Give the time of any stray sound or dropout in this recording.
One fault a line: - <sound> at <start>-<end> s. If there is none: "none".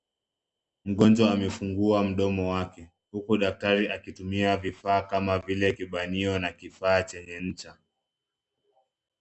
none